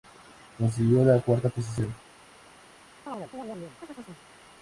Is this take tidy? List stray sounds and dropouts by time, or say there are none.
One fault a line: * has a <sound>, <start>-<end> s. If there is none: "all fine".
* has a chirp, 3.1-4.2 s